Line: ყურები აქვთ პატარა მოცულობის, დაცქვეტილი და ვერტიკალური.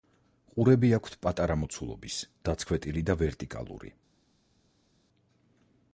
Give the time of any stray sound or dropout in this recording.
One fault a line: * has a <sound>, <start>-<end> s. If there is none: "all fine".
all fine